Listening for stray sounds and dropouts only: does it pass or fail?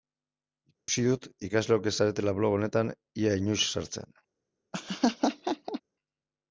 fail